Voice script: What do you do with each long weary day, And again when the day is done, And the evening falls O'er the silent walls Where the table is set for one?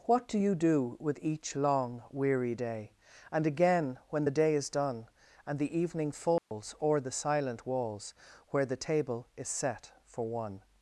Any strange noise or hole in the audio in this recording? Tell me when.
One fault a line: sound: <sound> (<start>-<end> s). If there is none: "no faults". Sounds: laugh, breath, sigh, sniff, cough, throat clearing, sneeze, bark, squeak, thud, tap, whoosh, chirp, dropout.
sound: dropout (6.4-6.5 s)